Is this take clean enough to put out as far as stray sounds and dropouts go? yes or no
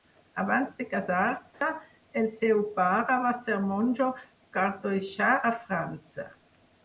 no